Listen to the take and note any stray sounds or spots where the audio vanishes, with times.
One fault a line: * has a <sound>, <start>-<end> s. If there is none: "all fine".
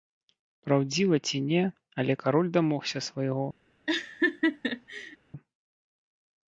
* has a laugh, 3.9-5.2 s